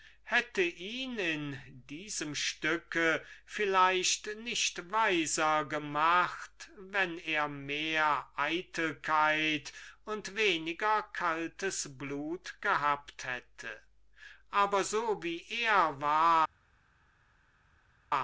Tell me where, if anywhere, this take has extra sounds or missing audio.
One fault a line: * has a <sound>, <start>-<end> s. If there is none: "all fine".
all fine